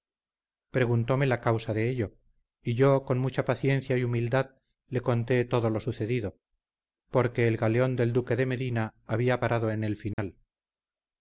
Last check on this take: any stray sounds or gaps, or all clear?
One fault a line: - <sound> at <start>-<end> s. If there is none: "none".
- dropout at 10.1-10.2 s